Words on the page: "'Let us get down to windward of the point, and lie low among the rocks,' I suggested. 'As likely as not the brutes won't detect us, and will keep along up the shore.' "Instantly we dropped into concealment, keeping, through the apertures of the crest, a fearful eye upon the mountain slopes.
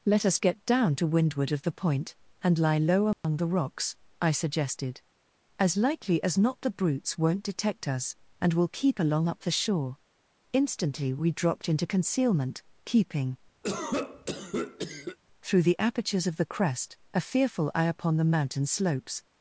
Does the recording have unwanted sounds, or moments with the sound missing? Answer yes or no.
yes